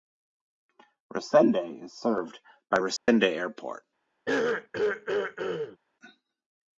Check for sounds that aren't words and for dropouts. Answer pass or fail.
fail